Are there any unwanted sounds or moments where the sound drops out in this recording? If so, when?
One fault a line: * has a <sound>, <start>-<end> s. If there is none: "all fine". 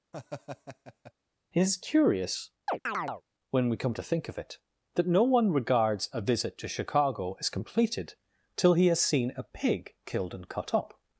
* has a laugh, 0.1-1.1 s
* has a chirp, 2.7-3.2 s